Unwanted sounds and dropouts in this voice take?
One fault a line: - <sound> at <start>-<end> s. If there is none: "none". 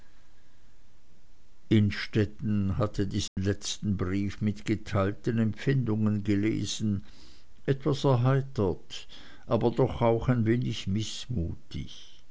- dropout at 3.3-3.4 s